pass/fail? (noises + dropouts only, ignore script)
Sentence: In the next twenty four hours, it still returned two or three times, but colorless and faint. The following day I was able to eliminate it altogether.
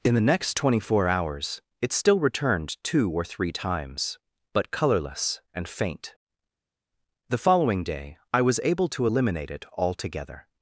pass